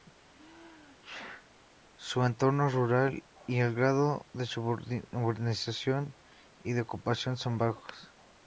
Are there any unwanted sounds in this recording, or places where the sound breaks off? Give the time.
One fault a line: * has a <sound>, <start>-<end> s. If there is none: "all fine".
* has a sneeze, 0.3-1.5 s